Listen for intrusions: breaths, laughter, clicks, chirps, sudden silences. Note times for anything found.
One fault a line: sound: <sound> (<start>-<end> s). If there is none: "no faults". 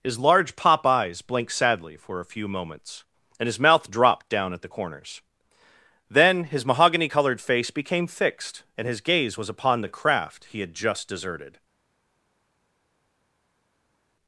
no faults